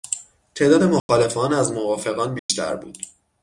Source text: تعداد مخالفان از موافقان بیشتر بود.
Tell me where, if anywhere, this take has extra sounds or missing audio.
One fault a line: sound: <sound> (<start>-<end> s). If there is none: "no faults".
sound: dropout (1.0-1.1 s)
sound: dropout (2.4-2.5 s)